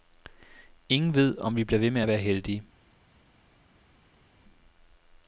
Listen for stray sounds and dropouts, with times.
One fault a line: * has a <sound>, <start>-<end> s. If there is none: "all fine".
all fine